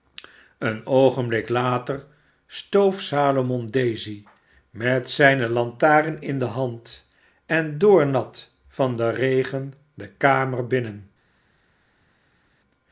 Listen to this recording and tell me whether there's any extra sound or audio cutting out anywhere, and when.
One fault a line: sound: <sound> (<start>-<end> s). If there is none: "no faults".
no faults